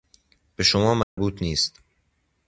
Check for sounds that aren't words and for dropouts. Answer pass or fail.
fail